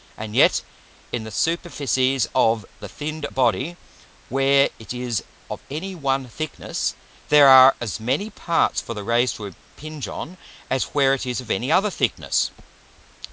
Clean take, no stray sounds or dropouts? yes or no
yes